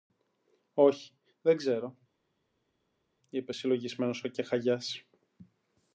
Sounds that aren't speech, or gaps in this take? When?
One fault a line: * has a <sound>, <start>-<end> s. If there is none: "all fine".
all fine